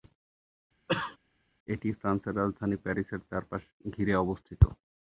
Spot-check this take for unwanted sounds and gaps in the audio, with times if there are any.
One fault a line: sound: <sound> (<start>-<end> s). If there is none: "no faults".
sound: cough (0.9-1.2 s)